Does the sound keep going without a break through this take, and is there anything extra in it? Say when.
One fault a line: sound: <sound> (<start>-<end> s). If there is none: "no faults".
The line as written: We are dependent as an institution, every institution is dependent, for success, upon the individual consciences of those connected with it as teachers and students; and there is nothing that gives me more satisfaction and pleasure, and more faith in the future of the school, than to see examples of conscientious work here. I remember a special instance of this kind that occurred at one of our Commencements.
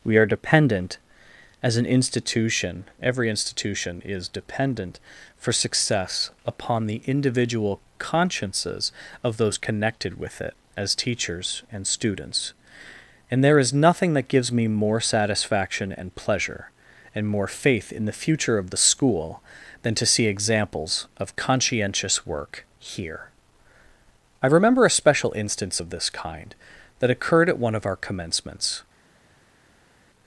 no faults